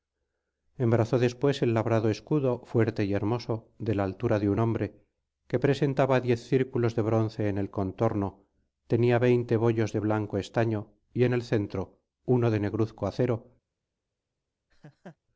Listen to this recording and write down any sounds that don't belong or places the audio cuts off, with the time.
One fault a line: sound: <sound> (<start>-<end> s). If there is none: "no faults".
sound: laugh (14.7-15.2 s)